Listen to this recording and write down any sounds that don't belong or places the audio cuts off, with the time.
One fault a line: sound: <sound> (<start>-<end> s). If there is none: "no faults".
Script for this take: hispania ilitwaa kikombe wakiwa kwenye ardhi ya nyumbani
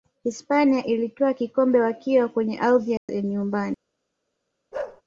sound: dropout (3.0-3.1 s)
sound: bark (4.7-5.0 s)